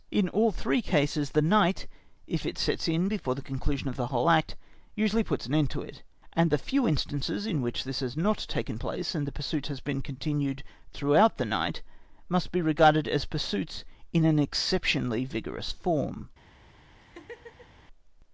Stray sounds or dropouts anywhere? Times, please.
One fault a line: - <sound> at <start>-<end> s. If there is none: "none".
- laugh at 17.0-17.8 s